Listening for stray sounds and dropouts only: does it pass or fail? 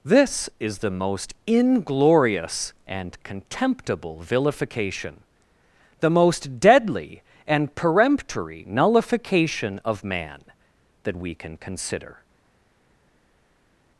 pass